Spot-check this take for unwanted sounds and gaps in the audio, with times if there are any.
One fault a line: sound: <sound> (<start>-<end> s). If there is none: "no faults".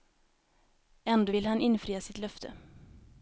no faults